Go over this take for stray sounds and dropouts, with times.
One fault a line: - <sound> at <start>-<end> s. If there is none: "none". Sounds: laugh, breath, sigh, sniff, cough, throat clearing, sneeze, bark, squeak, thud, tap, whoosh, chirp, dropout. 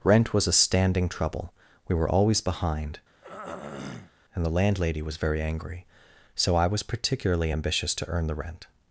- throat clearing at 3.2-4.1 s